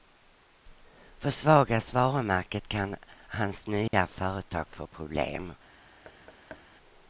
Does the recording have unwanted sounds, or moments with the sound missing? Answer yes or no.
yes